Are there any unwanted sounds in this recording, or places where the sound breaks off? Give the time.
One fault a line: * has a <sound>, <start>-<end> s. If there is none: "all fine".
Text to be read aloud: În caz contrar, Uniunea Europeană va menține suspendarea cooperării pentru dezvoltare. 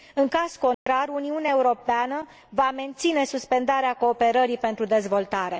* has a dropout, 0.7-0.9 s